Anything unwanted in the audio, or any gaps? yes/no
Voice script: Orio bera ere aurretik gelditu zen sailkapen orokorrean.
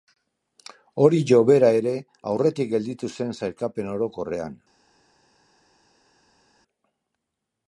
no